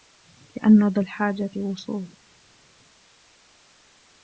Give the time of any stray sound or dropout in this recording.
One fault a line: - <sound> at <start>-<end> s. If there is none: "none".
none